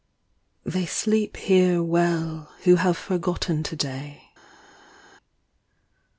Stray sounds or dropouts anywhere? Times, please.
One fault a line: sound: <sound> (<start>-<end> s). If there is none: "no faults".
no faults